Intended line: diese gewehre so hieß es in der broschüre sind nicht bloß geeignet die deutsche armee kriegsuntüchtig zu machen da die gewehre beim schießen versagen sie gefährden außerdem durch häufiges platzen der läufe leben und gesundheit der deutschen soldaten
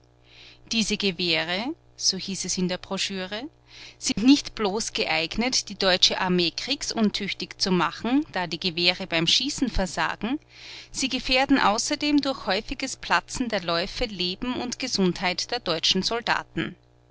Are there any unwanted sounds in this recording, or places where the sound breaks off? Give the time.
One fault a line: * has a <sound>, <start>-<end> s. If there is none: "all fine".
* has a dropout, 4.1-4.2 s